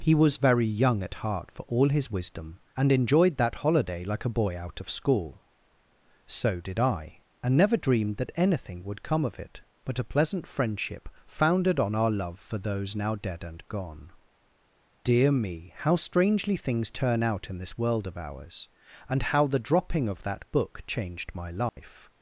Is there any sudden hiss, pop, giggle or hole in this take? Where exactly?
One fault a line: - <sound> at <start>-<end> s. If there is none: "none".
- dropout at 21.7-21.8 s